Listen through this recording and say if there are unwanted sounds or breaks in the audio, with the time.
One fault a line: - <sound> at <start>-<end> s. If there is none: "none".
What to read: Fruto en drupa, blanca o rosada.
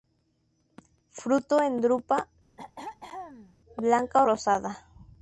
- throat clearing at 2.6-3.6 s